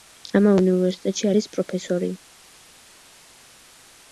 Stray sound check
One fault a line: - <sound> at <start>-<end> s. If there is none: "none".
none